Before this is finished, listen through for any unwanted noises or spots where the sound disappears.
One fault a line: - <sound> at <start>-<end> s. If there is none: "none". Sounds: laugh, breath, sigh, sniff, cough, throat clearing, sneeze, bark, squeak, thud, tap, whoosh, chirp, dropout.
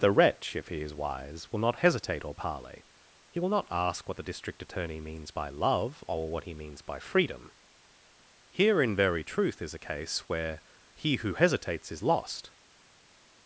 none